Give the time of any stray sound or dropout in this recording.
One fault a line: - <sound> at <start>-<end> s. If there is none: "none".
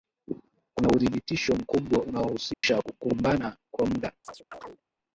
- dropout at 2.5-2.6 s
- chirp at 4.2-4.8 s